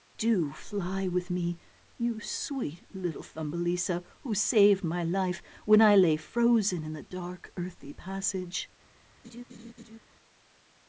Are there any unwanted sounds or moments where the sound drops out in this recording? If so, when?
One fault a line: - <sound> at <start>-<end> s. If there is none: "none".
- laugh at 9.2-10.0 s